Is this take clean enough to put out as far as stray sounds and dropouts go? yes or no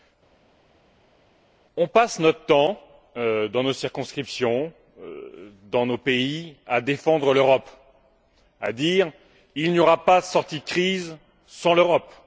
yes